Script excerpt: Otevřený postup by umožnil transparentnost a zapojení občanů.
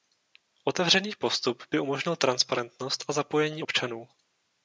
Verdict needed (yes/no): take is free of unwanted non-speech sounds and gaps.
yes